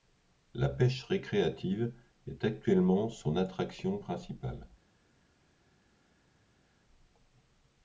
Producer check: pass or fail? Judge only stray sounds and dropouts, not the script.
pass